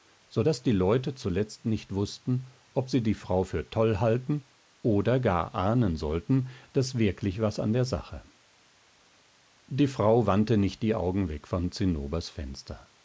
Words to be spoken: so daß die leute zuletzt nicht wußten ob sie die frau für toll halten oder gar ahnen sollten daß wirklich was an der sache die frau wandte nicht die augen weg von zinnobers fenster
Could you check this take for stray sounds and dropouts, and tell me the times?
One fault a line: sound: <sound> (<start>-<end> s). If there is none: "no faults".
no faults